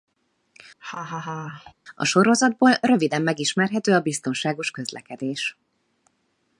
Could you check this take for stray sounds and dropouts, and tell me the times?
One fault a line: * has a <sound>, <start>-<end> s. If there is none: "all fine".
* has a laugh, 0.8-1.7 s